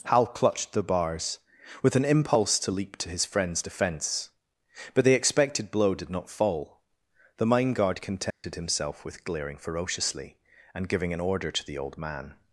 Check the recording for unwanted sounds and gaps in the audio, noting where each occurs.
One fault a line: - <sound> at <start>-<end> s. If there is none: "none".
- dropout at 8.3-8.4 s